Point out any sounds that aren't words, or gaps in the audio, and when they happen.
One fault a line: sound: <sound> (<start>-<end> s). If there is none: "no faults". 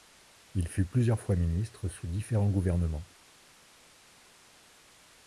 no faults